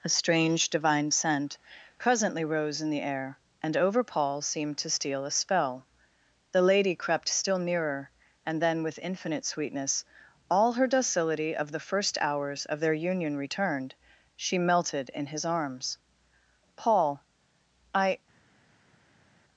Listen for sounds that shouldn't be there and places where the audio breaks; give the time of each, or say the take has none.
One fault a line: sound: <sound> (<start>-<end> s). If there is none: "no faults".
no faults